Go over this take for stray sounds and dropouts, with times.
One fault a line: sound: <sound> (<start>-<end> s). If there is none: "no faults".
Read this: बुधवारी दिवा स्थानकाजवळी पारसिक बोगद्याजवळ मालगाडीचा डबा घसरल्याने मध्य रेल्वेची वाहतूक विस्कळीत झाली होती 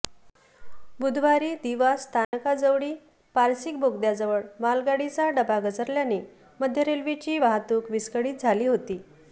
sound: dropout (2.2-2.3 s)